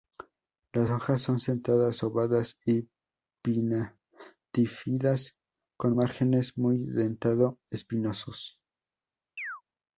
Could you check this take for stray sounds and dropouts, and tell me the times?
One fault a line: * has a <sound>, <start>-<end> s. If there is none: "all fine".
* has a chirp, 9.4-9.6 s